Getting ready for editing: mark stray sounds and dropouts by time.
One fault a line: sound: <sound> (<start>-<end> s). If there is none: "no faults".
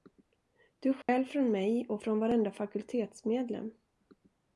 sound: dropout (1.0-1.1 s)